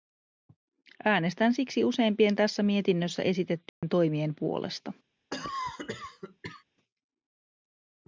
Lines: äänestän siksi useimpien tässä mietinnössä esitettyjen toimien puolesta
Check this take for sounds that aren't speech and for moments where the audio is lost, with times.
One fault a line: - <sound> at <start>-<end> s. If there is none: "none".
- dropout at 3.7-3.8 s
- cough at 5.3-6.6 s